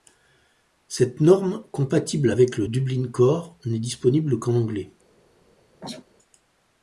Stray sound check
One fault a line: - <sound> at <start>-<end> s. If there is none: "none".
- sneeze at 5.8-6.0 s